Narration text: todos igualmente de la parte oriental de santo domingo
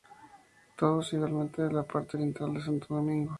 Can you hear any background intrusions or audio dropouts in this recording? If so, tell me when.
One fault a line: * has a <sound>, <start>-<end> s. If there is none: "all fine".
all fine